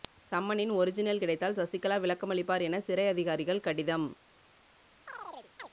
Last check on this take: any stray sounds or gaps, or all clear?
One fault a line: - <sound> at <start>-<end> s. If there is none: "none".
- chirp at 5.1-5.7 s